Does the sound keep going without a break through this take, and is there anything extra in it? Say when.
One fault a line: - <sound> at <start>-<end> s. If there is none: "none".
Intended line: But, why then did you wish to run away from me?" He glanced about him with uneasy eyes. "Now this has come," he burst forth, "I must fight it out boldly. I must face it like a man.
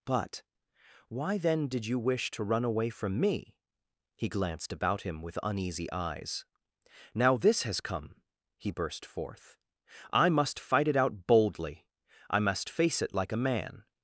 none